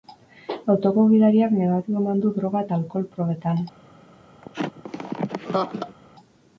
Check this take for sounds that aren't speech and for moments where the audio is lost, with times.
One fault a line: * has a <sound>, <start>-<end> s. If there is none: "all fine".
* has a laugh, 4.4-6.0 s